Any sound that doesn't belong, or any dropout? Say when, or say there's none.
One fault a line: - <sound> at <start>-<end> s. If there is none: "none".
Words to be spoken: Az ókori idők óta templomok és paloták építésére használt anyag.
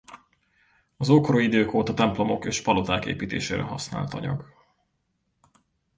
none